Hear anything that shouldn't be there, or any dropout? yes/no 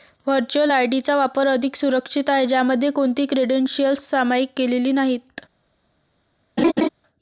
yes